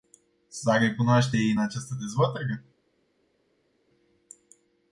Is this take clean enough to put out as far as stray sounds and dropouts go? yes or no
yes